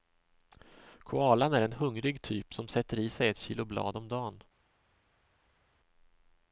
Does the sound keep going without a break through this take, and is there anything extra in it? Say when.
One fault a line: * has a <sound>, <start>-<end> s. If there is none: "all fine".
all fine